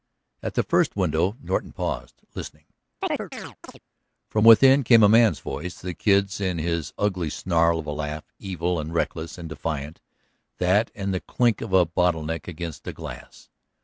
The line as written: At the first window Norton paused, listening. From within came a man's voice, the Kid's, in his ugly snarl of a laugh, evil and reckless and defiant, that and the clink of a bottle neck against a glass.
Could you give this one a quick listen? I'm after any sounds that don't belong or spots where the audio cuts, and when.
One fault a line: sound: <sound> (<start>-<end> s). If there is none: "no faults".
sound: chirp (3.0-3.8 s)